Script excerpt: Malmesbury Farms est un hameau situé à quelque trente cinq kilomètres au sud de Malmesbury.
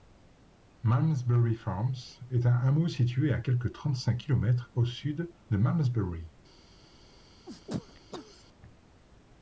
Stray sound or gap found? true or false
true